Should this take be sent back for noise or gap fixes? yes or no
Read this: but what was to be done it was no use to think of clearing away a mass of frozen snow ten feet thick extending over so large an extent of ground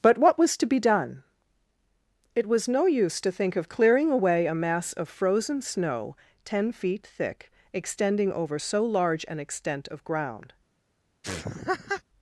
yes